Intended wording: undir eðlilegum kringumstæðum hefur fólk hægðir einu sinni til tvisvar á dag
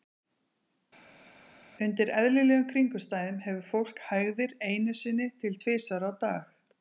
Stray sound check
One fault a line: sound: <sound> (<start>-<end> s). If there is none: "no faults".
no faults